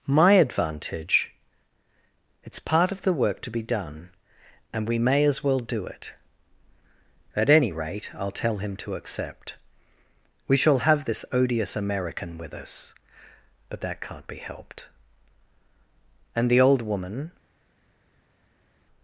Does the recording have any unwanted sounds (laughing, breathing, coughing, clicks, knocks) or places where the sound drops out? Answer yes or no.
no